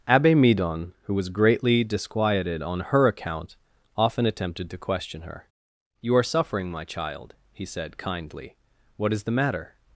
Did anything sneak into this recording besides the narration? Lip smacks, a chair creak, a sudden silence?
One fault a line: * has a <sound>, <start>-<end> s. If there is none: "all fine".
all fine